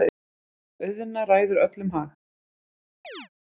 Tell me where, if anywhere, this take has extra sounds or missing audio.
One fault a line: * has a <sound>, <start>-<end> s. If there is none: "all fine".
* has a chirp, 3.0-3.3 s